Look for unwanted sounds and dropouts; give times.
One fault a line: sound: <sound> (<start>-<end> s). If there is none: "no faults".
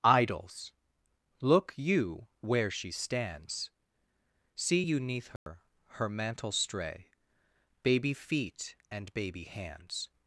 sound: dropout (5.4-5.5 s)